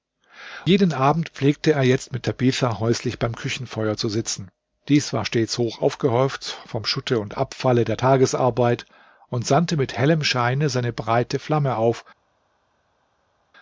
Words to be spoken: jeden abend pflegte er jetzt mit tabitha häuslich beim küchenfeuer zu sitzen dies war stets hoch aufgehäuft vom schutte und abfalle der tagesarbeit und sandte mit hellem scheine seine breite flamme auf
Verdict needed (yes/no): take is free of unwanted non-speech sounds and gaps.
yes